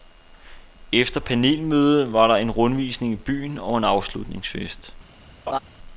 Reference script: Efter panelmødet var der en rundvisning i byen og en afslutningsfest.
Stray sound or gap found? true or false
true